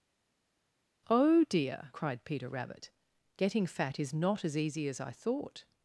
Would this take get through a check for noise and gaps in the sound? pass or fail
pass